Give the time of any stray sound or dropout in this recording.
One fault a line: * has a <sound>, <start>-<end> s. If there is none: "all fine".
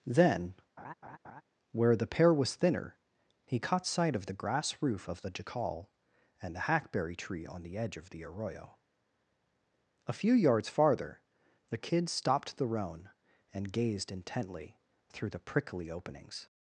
* has a laugh, 0.8-1.4 s